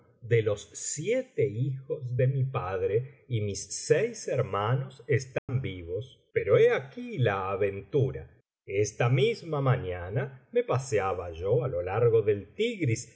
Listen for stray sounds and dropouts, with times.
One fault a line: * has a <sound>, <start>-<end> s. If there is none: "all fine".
* has a dropout, 5.4-5.5 s